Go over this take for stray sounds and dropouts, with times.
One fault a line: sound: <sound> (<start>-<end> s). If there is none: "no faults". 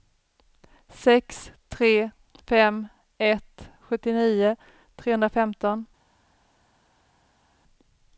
no faults